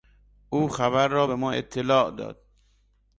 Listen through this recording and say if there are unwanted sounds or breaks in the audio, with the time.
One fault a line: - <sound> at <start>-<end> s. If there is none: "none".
none